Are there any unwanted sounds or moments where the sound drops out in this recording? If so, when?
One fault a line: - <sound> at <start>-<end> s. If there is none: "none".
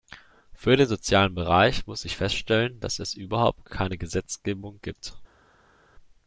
none